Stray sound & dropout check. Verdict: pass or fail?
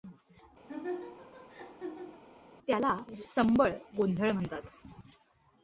fail